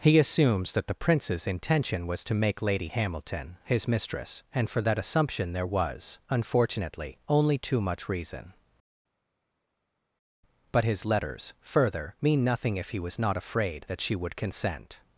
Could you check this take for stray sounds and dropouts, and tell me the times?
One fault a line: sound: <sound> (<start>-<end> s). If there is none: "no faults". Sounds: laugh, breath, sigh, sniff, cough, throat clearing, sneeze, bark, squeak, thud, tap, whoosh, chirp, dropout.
no faults